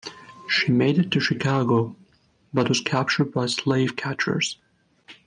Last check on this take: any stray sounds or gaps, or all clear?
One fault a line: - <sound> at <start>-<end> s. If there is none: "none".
none